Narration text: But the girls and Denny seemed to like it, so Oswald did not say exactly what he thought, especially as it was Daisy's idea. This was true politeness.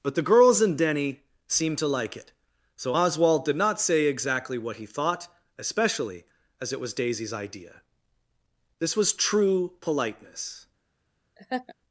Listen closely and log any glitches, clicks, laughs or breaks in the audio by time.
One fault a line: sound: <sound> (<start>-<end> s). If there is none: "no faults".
sound: laugh (11.4-11.7 s)